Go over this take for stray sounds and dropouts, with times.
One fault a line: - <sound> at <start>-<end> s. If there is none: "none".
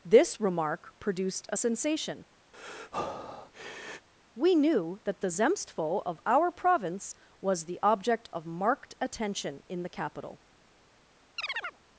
- breath at 2.5-4.1 s
- chirp at 11.4-11.8 s